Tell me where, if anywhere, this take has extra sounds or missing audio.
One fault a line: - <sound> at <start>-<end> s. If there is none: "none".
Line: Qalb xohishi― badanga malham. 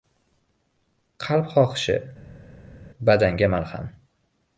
none